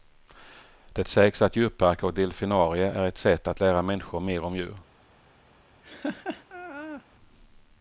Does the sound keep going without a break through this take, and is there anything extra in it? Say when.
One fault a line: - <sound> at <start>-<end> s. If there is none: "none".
- laugh at 5.8-7.1 s